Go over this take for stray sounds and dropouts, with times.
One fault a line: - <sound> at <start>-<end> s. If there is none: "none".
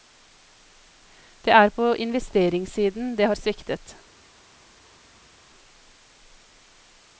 none